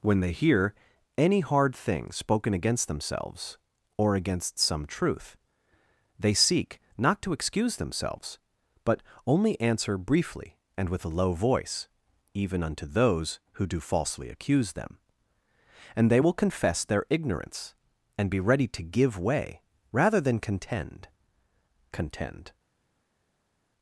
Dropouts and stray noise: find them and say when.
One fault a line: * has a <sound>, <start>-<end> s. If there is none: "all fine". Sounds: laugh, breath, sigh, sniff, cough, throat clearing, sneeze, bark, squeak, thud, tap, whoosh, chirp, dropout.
all fine